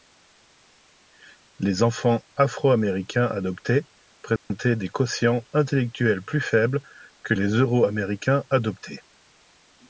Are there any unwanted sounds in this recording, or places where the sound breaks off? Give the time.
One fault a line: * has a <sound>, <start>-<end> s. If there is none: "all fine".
* has a dropout, 4.4-4.5 s